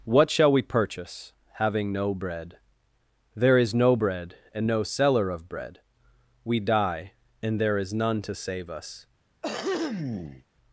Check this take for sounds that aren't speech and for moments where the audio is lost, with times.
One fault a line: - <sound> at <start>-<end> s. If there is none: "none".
- throat clearing at 9.4-10.4 s